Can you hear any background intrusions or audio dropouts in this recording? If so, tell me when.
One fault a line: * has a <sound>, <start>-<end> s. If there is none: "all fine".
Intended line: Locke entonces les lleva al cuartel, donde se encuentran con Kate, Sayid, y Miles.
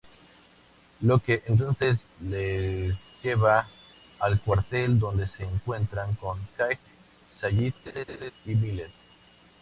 * has a laugh, 7.9-8.3 s